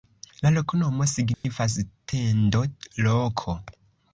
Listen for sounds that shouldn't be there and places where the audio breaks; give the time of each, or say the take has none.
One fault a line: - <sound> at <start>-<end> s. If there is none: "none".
- dropout at 1.3-1.4 s